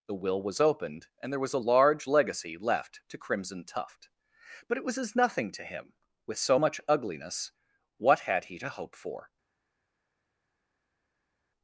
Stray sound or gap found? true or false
false